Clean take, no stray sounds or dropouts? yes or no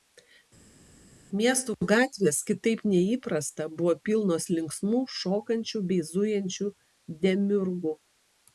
yes